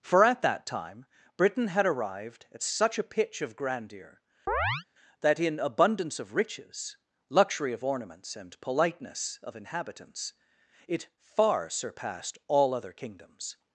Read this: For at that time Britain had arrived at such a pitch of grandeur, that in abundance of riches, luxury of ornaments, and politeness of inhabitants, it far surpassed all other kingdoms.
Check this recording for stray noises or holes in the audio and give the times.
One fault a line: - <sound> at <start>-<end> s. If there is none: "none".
- chirp at 4.5-4.8 s